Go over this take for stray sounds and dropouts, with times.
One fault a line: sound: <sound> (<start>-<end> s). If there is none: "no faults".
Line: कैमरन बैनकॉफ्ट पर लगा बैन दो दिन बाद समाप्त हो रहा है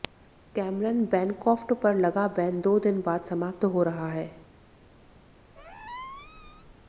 sound: squeak (5.6-6.7 s)